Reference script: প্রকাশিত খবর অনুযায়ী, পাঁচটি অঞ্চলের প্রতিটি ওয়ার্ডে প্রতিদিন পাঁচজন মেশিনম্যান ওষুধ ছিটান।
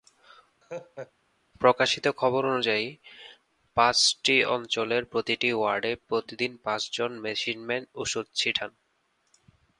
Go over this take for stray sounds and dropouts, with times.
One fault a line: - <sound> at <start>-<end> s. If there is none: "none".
- laugh at 0.6-1.1 s